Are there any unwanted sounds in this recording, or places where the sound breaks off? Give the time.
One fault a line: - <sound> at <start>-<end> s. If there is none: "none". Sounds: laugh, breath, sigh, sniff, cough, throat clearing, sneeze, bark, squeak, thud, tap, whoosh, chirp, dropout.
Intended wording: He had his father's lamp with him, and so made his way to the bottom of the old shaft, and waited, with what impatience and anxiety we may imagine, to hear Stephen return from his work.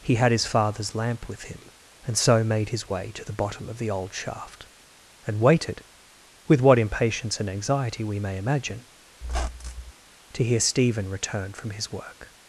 - squeak at 9.2-9.9 s